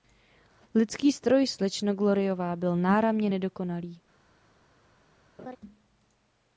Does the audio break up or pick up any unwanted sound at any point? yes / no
yes